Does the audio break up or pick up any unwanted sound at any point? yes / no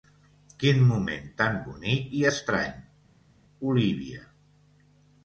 no